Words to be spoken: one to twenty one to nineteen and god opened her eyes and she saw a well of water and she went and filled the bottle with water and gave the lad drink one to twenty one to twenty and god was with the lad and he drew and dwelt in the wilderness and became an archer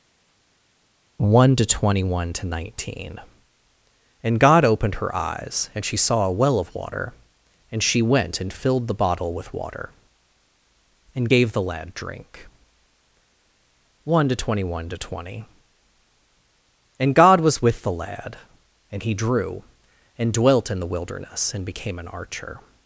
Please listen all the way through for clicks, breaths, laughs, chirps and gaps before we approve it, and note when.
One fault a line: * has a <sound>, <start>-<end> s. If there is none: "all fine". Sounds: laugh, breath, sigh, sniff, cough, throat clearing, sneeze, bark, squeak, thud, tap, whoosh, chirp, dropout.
all fine